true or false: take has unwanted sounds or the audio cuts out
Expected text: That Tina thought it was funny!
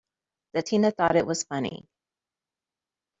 false